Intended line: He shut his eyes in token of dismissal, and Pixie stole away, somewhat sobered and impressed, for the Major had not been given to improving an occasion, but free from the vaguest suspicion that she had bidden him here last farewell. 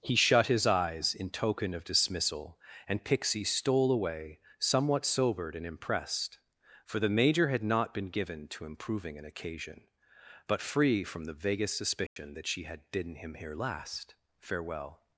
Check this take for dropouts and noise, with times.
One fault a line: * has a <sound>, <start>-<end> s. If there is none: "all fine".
* has a dropout, 12.1-12.2 s